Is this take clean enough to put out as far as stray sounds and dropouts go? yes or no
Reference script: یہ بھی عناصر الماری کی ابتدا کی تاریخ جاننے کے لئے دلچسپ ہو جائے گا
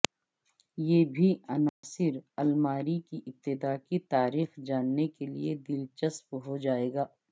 no